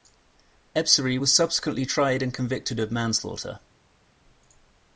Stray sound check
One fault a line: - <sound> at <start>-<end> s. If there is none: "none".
none